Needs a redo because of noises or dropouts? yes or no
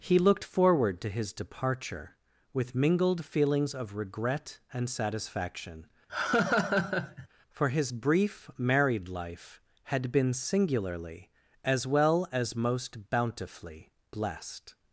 yes